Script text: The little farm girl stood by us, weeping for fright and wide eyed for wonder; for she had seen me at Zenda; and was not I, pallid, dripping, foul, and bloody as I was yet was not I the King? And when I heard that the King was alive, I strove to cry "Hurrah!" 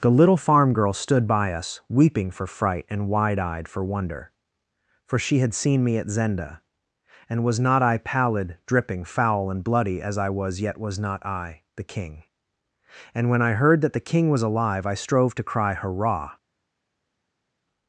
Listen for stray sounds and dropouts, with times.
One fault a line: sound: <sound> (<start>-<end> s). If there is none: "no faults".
no faults